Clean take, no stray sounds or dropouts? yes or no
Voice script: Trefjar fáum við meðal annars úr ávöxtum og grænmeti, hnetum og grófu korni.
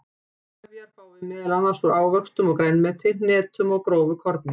yes